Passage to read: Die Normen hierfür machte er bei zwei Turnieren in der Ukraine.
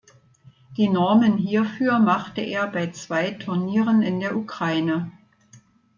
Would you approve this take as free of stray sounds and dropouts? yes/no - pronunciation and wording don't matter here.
yes